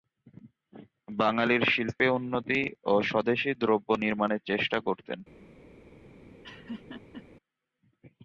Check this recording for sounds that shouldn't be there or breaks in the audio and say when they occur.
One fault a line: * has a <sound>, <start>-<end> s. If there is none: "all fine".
* has a laugh, 6.4-7.2 s